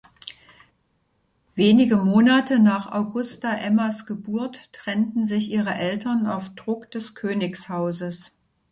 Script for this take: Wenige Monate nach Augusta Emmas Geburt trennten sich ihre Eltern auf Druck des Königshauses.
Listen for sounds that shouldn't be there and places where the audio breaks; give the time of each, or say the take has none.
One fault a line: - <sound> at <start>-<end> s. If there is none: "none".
none